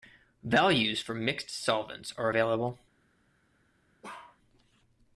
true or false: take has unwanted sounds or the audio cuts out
true